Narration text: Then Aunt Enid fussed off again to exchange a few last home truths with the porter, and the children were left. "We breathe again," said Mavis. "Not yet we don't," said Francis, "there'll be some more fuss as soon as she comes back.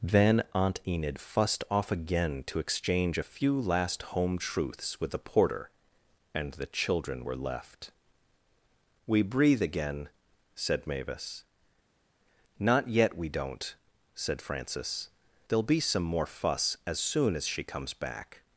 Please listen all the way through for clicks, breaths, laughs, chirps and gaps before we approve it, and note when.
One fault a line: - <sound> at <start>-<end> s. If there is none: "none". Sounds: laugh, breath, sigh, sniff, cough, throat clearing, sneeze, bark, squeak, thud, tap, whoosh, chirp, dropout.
none